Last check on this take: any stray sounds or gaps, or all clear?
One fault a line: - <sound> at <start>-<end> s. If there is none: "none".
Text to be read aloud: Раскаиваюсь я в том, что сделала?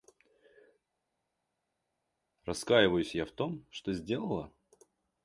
none